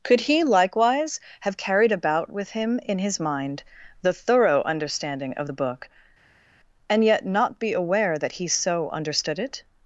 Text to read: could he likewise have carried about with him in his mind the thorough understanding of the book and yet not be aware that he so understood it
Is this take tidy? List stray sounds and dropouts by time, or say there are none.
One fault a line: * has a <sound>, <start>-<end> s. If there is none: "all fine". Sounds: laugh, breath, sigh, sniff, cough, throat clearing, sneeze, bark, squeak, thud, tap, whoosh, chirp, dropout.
all fine